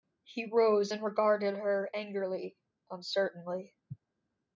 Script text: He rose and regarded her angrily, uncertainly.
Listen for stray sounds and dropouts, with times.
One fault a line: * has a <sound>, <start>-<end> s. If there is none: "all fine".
all fine